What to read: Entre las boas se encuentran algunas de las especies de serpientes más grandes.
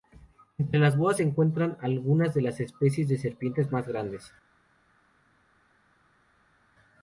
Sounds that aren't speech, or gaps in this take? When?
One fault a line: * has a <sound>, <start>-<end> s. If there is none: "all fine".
all fine